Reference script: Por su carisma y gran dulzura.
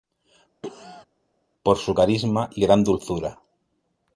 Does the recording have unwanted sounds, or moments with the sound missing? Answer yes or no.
yes